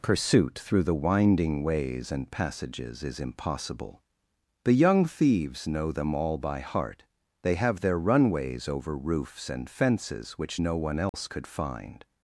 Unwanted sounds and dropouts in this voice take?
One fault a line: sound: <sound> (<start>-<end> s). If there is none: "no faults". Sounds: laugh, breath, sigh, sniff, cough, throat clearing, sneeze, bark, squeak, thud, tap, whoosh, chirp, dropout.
sound: dropout (11.1-11.1 s)